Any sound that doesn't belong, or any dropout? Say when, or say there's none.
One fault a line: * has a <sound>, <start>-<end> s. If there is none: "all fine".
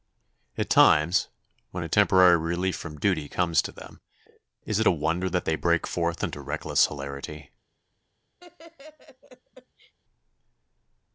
* has a laugh, 8.4-9.9 s